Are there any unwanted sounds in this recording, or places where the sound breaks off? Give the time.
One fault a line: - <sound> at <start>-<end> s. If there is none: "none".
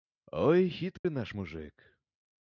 - dropout at 1.0-1.0 s